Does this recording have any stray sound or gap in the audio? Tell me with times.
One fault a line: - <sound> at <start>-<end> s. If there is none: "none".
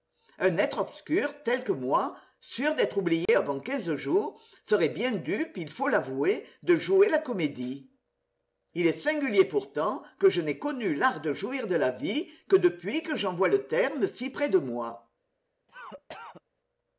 - dropout at 3.3-3.3 s
- cough at 15.7-16.4 s